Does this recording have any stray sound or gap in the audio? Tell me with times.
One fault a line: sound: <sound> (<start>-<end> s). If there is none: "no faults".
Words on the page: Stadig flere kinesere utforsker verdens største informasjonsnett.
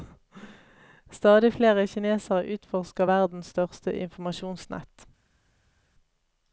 no faults